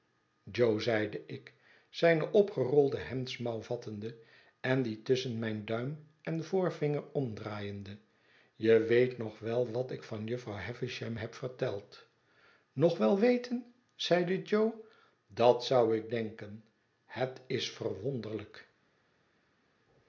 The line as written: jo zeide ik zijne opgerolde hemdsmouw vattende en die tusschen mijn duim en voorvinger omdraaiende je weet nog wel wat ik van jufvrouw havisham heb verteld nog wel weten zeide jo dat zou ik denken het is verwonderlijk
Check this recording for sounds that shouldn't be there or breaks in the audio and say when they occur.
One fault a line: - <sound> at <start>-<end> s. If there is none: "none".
none